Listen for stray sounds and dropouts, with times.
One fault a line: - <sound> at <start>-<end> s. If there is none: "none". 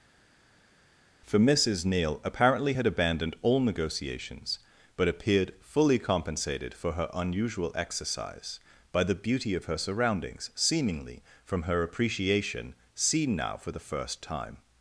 none